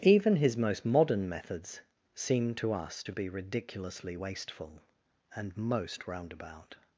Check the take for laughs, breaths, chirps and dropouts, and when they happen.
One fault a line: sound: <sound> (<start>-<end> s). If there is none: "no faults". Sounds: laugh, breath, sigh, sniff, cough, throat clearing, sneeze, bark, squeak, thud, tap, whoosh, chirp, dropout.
no faults